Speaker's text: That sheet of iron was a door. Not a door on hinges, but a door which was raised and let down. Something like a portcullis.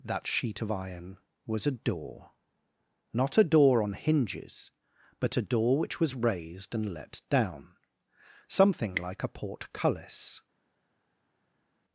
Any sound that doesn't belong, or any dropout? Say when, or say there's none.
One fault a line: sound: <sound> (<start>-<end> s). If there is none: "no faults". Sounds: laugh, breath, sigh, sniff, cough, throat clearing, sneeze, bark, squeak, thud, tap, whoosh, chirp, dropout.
no faults